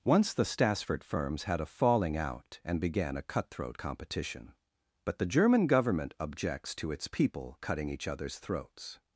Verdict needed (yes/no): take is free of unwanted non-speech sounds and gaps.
yes